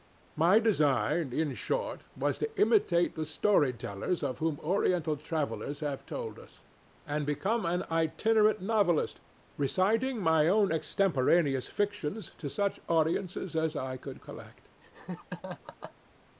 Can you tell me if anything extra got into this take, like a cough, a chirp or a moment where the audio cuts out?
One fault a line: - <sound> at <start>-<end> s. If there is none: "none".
- laugh at 14.8-15.9 s